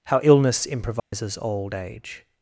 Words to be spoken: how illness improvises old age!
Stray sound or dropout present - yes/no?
yes